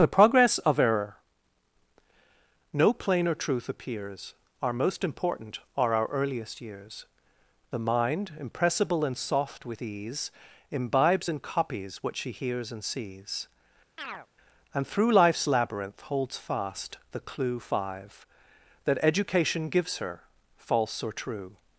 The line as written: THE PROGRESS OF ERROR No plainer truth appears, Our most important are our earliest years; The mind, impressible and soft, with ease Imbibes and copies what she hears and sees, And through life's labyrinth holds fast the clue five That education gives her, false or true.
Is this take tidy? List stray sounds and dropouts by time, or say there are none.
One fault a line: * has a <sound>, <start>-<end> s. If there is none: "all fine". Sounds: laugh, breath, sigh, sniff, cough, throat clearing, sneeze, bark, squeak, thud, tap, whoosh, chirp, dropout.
* has a chirp, 14.0-14.3 s